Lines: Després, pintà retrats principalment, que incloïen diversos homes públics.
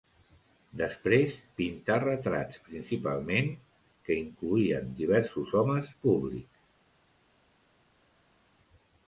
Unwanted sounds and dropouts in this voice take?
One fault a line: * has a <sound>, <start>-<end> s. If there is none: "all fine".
all fine